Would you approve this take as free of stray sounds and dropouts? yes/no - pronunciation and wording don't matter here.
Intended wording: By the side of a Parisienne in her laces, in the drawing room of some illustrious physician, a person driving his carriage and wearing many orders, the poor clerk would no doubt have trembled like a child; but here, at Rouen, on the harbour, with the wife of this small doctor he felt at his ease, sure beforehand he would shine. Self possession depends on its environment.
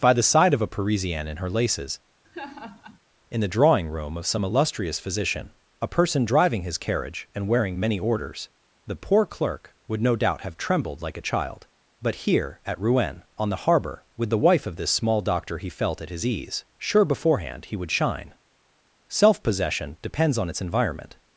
no